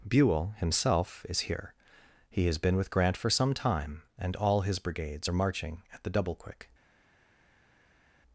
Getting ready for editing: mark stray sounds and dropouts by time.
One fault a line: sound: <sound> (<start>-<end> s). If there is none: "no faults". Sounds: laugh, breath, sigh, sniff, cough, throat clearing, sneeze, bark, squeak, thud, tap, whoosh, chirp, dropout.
no faults